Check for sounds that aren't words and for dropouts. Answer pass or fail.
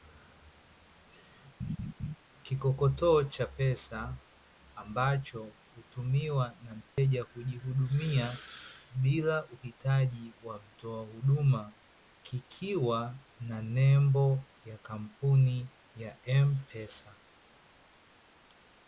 fail